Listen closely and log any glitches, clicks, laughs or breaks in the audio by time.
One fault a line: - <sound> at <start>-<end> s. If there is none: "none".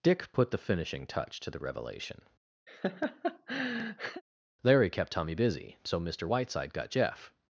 - laugh at 2.7-4.2 s